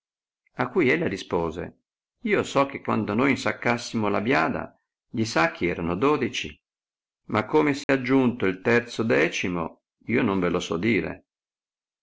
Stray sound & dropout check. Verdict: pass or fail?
fail